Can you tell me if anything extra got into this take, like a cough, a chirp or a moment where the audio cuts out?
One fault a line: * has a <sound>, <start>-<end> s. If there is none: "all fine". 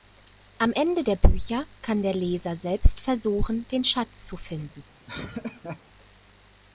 * has a laugh, 5.1-5.8 s